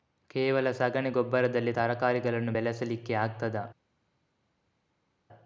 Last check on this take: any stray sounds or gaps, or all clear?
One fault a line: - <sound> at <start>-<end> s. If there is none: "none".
none